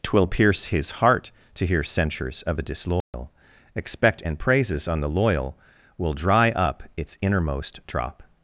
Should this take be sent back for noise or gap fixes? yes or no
yes